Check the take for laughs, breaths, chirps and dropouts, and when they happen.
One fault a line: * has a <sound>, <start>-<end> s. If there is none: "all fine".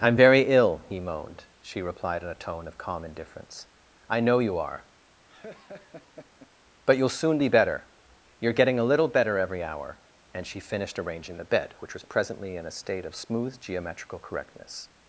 * has a laugh, 5.3-6.5 s